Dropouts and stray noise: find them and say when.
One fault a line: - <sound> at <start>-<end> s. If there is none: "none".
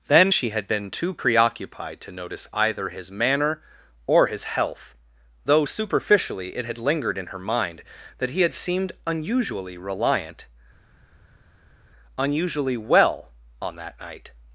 none